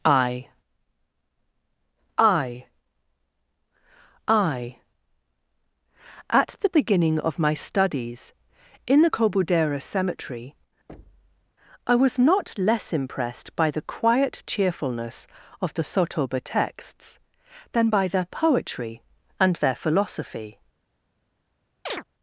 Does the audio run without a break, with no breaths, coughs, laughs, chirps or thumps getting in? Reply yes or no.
no